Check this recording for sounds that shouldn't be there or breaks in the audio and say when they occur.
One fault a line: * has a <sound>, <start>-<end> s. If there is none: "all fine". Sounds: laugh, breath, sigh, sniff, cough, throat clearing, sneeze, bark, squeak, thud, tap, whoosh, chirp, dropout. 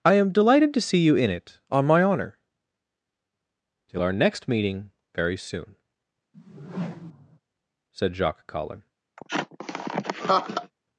* has a whoosh, 6.3-7.4 s
* has a laugh, 9.2-10.7 s